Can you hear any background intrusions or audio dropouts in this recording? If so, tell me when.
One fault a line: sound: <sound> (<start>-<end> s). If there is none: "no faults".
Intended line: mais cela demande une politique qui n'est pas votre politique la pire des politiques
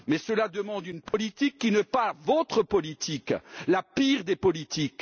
sound: dropout (1.1-1.1 s)